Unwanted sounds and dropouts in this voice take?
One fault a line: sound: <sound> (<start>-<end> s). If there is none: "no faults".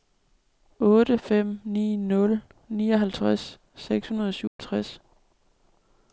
sound: dropout (4.5-4.6 s)